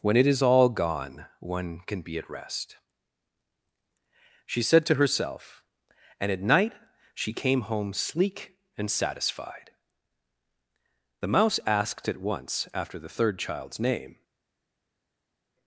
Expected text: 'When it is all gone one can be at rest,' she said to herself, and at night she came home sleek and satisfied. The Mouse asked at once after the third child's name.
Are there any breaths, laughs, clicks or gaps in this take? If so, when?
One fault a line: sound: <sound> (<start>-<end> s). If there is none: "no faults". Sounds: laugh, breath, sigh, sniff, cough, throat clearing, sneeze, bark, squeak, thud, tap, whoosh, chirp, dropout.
no faults